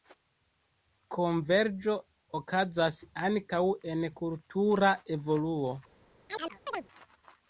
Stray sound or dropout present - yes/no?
yes